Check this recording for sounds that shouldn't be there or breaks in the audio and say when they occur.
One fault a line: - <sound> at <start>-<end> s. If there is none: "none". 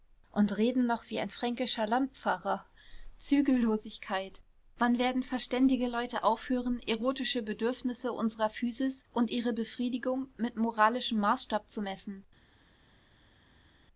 none